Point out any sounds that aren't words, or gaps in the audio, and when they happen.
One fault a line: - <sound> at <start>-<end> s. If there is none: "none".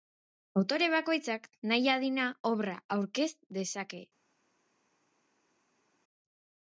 none